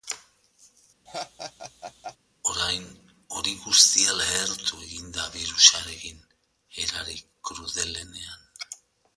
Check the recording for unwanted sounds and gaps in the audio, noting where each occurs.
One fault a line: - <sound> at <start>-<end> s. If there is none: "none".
- laugh at 1.1-2.2 s